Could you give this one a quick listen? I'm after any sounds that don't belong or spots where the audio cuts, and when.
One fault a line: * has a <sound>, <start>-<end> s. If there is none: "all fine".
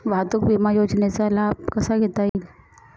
* has a dropout, 2.3-2.3 s